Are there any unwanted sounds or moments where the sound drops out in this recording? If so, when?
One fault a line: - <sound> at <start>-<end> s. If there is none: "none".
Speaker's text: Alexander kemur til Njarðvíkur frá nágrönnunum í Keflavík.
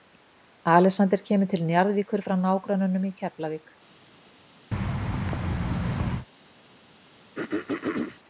- thud at 4.7-6.3 s
- throat clearing at 7.4-8.2 s